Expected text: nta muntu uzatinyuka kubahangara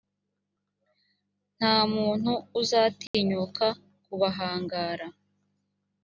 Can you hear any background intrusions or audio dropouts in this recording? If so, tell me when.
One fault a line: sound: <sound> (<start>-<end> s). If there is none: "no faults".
sound: dropout (3.1-3.1 s)